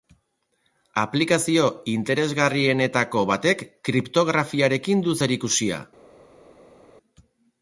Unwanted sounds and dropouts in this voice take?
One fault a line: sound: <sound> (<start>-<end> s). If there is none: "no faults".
no faults